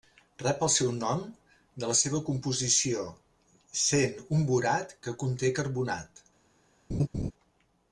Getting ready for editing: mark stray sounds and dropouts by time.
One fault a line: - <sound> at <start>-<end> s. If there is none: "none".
- laugh at 6.9-7.3 s